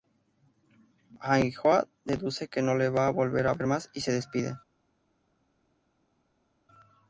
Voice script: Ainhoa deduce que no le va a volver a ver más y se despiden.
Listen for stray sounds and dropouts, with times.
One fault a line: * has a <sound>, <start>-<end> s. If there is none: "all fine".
all fine